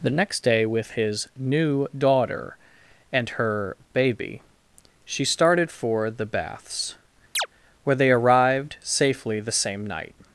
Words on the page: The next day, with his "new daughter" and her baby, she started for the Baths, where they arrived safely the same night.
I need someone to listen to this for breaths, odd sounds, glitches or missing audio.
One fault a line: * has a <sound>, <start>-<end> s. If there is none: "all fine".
* has a chirp, 7.3-7.5 s